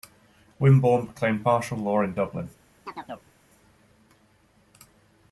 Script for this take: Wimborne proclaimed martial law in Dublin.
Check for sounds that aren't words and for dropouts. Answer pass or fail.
fail